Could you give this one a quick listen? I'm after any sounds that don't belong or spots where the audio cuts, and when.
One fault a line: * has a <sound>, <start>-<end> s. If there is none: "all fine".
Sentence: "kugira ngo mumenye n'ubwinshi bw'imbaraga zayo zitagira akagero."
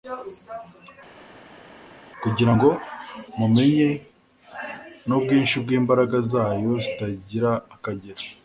all fine